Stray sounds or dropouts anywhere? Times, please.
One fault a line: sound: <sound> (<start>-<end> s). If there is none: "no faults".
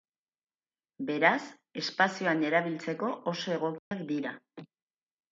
sound: dropout (3.8-3.9 s)